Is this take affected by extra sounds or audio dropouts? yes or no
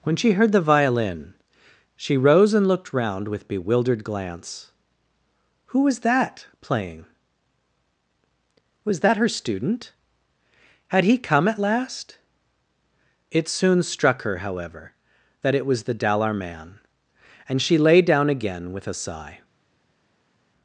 no